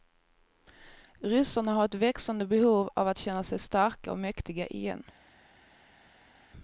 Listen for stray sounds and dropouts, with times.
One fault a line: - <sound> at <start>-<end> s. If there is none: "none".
none